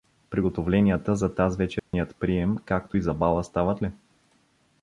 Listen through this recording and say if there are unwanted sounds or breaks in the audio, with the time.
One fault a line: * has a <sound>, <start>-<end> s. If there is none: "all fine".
* has a dropout, 1.8-1.9 s